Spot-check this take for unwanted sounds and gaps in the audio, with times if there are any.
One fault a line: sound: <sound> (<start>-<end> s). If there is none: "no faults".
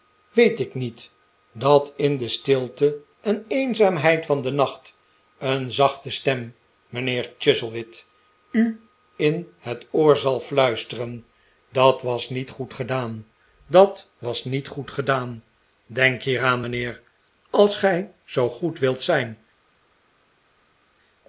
no faults